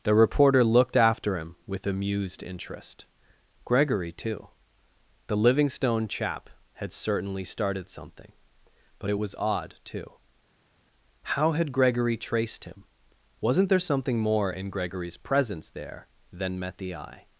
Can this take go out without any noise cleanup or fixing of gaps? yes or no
yes